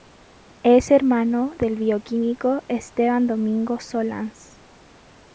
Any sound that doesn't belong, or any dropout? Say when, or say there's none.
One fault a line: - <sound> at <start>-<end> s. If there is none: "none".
none